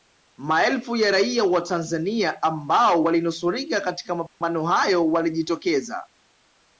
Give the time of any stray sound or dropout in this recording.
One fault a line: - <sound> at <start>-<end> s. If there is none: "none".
- dropout at 4.3-4.4 s